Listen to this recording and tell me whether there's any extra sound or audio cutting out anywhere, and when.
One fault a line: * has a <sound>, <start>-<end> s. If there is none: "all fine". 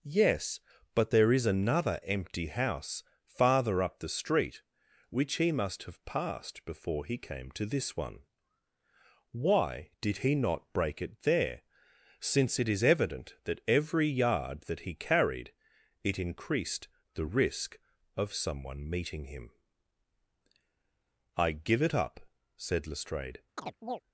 * has a chirp, 23.6-24.0 s